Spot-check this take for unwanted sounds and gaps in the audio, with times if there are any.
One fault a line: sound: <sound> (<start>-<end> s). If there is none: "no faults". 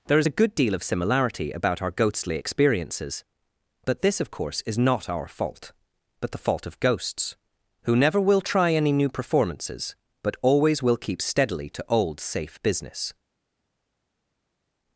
no faults